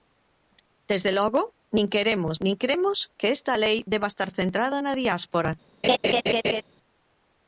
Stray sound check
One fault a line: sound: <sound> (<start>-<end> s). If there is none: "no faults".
sound: laugh (5.8-6.6 s)